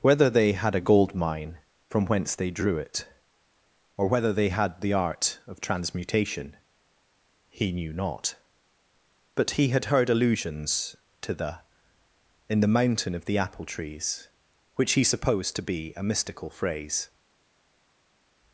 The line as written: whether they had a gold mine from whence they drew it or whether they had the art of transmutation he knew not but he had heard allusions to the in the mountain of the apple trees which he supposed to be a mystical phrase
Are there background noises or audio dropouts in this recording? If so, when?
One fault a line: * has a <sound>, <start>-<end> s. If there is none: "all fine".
all fine